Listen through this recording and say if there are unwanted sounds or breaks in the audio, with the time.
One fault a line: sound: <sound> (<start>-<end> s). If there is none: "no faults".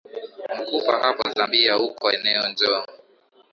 no faults